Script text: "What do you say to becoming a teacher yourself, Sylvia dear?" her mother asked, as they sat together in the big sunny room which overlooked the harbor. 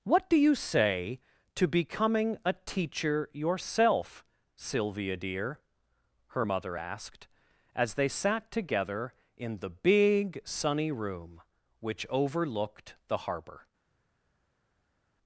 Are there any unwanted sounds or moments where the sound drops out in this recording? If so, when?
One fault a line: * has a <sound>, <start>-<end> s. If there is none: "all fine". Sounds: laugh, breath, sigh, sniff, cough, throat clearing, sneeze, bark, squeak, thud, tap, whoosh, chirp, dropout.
all fine